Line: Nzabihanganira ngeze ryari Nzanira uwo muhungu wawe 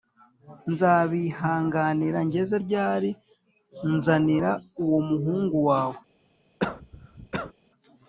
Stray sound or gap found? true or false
true